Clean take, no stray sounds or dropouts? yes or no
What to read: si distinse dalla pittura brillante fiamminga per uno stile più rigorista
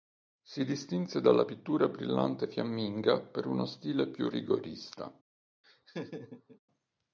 no